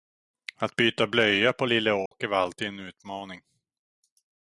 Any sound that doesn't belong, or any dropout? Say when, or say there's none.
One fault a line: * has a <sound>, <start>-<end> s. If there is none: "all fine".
* has a dropout, 2.1-2.1 s